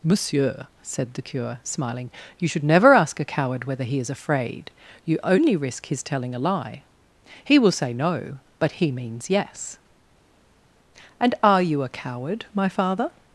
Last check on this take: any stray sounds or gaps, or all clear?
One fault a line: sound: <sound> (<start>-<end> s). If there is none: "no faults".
no faults